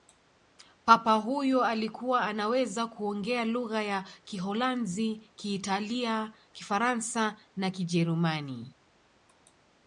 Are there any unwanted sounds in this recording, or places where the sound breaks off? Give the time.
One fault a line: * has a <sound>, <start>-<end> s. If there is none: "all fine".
all fine